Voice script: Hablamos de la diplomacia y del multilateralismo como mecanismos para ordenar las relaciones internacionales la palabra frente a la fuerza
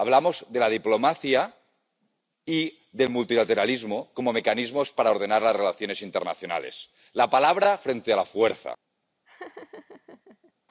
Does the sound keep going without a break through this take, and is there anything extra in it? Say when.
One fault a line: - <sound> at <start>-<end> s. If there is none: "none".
- laugh at 9.3-10.5 s